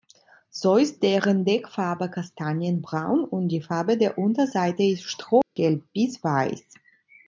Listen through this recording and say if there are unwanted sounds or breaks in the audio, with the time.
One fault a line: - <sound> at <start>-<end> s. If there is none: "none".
- dropout at 5.4-5.6 s